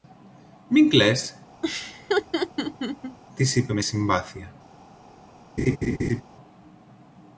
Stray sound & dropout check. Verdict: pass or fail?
fail